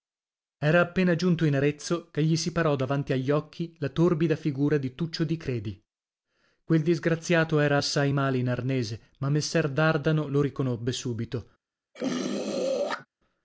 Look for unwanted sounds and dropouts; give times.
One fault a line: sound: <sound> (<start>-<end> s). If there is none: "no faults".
sound: throat clearing (11.9-13.1 s)